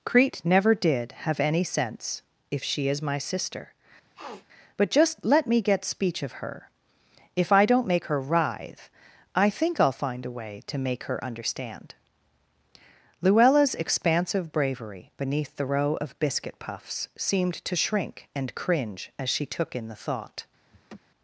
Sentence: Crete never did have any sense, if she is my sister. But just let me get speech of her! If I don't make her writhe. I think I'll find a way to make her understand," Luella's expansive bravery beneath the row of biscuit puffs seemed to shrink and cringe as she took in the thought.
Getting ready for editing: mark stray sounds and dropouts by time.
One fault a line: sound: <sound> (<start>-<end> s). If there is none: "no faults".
sound: sniff (4.1-4.5 s)
sound: laugh (20.7-21.0 s)